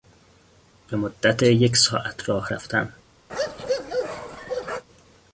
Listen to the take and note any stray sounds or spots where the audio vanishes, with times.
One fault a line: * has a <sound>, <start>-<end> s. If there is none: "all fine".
* has a bark, 3.3-4.8 s